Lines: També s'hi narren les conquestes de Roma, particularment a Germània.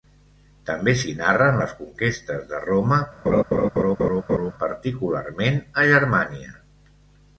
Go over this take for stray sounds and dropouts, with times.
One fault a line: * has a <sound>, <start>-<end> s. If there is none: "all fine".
* has a laugh, 3.3-4.5 s